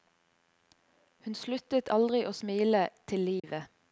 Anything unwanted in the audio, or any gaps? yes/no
yes